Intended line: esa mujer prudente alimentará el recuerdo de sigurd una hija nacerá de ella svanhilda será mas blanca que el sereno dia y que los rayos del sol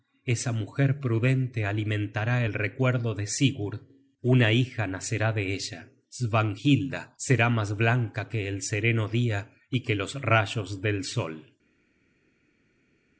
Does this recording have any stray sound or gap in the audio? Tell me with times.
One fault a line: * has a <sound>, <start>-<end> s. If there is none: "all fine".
all fine